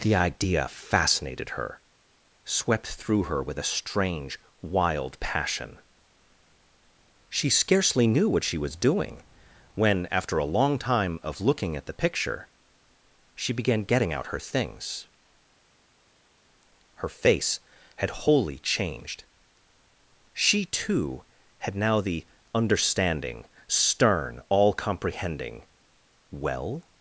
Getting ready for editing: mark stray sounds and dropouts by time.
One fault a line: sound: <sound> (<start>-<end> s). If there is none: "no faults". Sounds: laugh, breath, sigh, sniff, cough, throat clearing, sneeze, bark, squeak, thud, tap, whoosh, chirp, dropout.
no faults